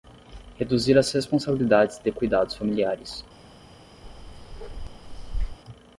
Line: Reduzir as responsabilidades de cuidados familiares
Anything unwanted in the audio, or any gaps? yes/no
yes